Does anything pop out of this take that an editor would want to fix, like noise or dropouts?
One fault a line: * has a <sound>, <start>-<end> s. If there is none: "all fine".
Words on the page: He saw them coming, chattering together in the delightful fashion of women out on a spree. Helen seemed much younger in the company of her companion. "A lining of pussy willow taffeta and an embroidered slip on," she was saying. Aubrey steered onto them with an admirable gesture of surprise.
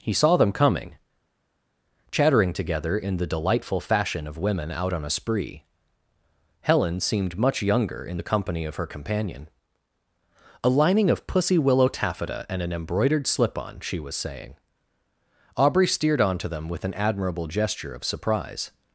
all fine